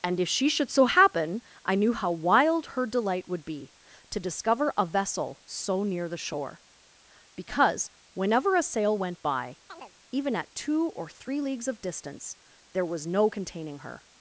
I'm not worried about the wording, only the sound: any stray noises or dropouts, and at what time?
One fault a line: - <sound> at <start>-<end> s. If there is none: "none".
- chirp at 9.7-9.9 s